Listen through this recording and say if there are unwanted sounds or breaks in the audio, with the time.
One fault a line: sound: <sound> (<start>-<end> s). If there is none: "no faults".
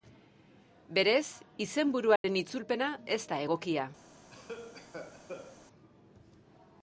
sound: dropout (2.2-2.2 s)
sound: cough (4.3-5.6 s)